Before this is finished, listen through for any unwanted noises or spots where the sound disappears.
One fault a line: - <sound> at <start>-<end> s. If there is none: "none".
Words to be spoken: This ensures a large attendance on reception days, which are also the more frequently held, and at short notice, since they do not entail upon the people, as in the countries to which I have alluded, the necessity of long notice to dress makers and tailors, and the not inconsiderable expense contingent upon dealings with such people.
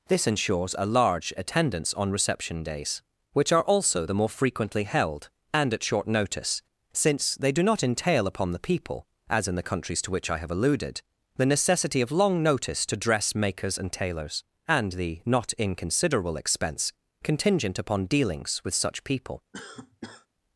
- cough at 19.5-20.3 s